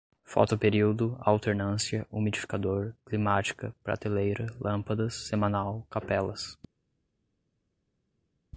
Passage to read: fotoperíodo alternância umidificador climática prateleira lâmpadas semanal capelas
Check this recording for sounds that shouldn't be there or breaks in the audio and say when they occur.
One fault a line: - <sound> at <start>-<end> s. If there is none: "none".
none